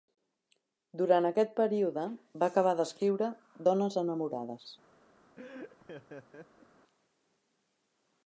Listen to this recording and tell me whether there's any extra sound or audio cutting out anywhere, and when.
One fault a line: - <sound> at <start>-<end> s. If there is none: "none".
- laugh at 5.4-6.7 s